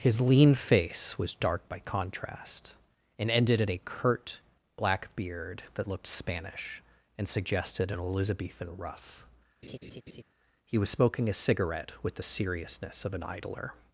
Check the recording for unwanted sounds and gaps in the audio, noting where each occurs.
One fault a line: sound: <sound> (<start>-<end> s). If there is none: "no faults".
sound: laugh (9.6-10.2 s)